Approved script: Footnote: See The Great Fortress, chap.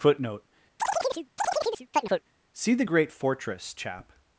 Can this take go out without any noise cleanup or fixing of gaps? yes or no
no